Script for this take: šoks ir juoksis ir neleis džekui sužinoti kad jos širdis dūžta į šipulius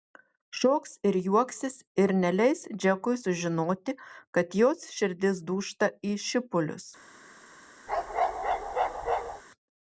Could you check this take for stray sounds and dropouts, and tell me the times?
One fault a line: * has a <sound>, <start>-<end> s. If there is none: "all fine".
* has a bark, 7.9-9.4 s